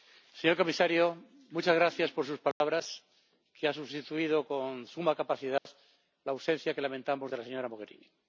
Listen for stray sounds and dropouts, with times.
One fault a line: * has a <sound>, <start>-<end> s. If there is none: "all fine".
* has a dropout, 2.5-2.6 s
* has a dropout, 5.6-5.7 s